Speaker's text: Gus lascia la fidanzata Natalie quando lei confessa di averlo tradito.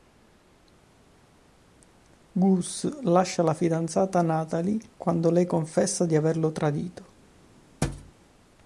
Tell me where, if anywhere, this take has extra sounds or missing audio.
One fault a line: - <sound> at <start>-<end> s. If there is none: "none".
- thud at 7.8-8.1 s